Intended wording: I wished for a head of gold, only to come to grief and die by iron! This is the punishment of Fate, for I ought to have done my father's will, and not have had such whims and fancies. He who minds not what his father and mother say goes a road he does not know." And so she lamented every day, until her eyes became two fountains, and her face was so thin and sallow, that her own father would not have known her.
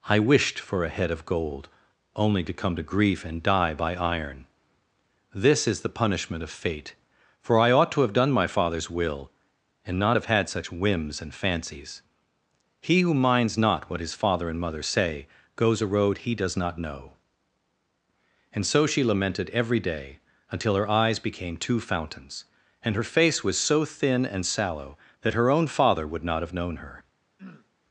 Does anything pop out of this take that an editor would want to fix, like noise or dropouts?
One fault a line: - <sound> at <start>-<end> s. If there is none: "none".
- throat clearing at 27.4-27.7 s